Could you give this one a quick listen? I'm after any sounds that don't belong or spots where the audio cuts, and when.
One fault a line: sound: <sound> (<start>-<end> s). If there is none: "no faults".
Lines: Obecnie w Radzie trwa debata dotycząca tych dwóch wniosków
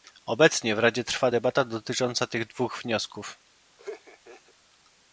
sound: laugh (3.8-4.5 s)